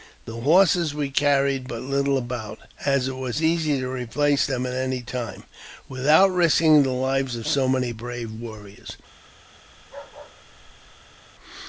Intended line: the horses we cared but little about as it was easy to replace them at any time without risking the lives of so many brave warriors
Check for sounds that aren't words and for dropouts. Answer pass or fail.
fail